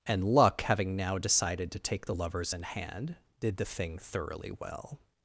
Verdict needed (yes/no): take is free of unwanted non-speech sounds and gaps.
yes